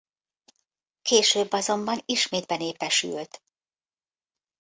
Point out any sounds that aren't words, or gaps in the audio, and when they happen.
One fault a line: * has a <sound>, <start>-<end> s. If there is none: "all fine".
all fine